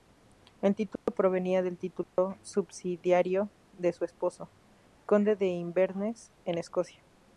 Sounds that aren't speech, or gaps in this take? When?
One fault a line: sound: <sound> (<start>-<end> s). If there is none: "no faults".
sound: dropout (1.0-1.1 s)
sound: dropout (2.0-2.2 s)